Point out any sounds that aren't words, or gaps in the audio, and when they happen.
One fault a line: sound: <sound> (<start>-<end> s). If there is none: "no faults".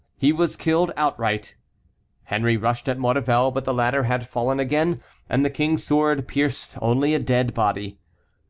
no faults